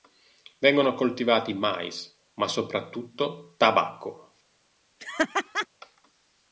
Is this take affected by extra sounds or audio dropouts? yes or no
yes